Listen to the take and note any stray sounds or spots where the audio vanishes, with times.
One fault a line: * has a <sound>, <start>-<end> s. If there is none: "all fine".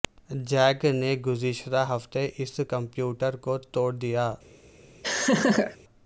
* has a laugh, 5.0-5.8 s